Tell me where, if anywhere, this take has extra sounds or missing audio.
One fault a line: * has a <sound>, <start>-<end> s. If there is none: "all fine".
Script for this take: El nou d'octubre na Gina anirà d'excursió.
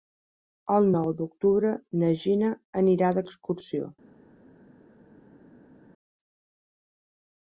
all fine